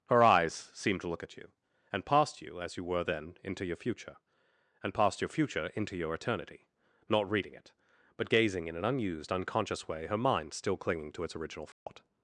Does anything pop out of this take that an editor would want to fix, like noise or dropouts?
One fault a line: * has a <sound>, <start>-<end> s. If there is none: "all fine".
* has a dropout, 11.7-11.9 s